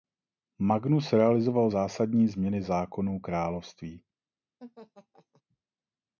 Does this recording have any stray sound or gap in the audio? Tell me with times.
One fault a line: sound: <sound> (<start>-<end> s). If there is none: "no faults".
sound: laugh (4.6-5.4 s)